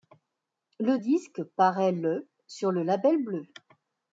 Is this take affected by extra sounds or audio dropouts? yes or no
no